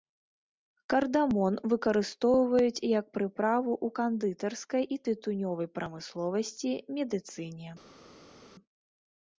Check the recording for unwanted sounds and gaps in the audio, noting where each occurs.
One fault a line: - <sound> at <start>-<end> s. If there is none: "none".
none